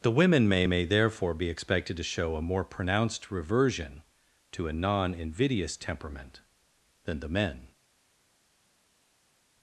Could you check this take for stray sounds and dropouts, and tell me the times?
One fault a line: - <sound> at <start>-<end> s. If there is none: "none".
none